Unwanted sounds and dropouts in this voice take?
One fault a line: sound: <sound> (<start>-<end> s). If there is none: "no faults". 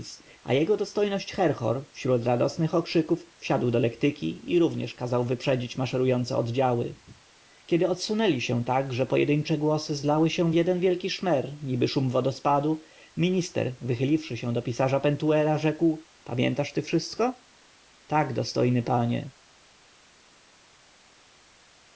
no faults